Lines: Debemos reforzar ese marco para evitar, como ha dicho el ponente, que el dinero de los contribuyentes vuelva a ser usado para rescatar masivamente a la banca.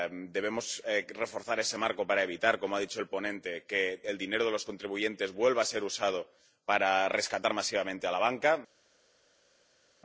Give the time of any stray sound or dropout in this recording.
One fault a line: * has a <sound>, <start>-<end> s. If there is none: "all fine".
all fine